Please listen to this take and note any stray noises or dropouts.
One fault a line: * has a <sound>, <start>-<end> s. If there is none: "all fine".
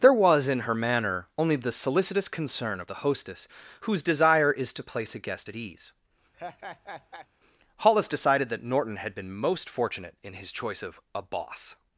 * has a laugh, 6.3-7.3 s